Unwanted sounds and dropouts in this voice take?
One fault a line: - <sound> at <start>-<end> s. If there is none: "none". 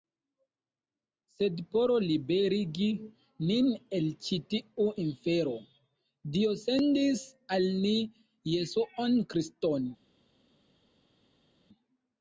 none